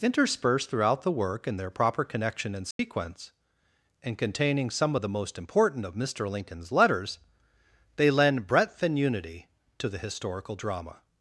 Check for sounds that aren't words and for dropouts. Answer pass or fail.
fail